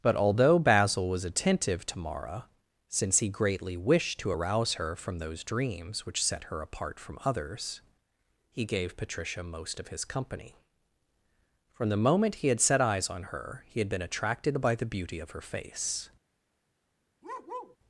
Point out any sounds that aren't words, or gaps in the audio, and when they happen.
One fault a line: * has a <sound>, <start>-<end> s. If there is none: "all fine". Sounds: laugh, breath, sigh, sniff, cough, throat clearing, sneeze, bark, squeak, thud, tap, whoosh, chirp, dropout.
* has a bark, 17.2-17.8 s